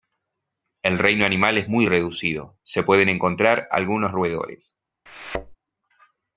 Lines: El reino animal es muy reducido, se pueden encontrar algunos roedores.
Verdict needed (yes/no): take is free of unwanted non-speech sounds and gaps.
no